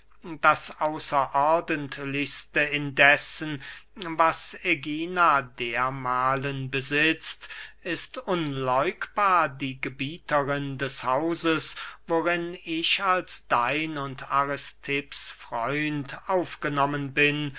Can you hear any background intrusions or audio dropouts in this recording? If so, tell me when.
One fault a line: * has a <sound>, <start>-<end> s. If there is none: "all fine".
all fine